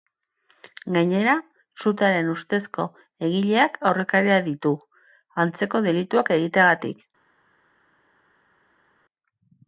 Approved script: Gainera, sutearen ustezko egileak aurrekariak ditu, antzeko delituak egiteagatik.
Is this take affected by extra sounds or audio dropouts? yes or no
no